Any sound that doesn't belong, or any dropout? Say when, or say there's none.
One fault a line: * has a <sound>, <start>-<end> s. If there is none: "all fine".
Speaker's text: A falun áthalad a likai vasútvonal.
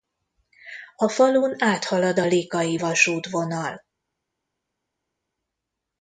all fine